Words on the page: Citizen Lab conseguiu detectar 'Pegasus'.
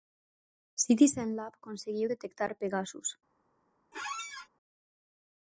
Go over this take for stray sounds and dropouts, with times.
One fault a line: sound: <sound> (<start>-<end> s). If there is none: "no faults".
sound: squeak (3.9-4.5 s)